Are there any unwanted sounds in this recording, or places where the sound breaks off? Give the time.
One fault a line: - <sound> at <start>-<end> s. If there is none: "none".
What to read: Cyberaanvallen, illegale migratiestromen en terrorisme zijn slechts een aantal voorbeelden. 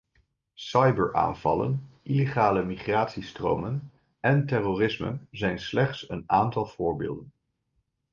none